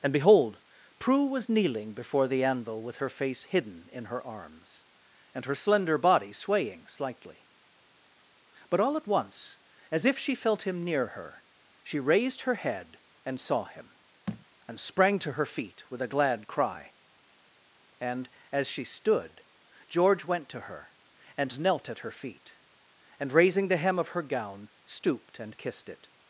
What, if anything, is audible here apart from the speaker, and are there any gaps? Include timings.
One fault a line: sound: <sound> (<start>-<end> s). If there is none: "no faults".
sound: thud (14.3-14.5 s)